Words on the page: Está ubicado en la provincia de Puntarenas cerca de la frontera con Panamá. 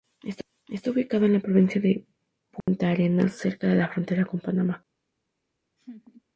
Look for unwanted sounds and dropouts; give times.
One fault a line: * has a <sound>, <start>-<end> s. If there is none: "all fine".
* has a dropout, 2.6-2.7 s
* has a laugh, 5.8-6.2 s